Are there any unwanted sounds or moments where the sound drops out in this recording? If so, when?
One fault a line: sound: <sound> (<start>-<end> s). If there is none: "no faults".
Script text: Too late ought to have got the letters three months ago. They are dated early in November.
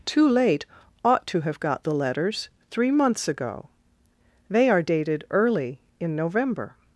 no faults